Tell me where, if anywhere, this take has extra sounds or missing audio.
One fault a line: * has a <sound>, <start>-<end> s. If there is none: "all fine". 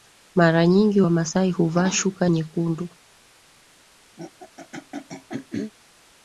* has a throat clearing, 4.2-5.7 s